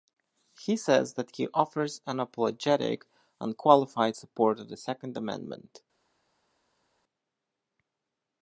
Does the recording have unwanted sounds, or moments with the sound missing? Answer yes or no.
no